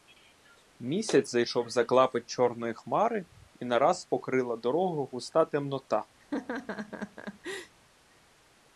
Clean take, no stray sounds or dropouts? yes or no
no